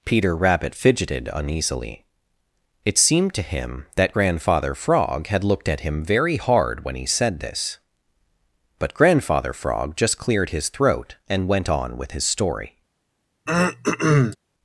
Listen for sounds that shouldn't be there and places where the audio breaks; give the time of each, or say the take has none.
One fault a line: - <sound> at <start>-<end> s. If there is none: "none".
- throat clearing at 13.5-14.4 s